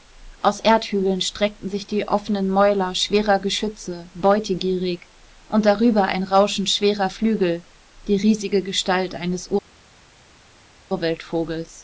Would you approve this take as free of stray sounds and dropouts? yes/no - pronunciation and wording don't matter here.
yes